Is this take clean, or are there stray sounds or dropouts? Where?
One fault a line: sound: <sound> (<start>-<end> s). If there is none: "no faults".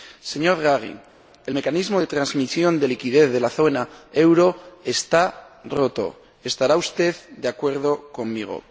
no faults